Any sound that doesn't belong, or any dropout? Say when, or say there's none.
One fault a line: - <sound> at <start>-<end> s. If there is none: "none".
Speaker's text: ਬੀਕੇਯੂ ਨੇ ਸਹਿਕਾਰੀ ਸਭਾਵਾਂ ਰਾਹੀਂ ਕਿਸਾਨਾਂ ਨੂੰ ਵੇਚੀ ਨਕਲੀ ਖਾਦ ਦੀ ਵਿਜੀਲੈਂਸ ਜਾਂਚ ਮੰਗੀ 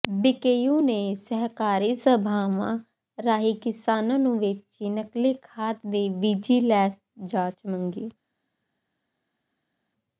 none